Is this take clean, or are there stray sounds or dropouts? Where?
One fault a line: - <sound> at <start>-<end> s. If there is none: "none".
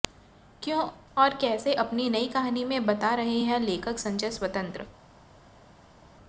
none